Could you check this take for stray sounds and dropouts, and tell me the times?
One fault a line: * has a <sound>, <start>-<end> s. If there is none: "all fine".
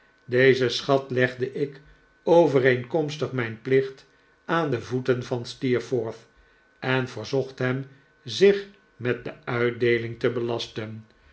all fine